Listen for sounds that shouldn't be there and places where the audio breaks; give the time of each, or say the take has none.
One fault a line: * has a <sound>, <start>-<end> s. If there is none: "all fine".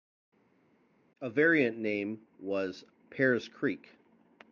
all fine